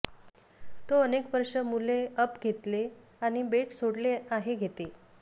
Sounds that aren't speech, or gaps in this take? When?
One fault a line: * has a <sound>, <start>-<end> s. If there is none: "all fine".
all fine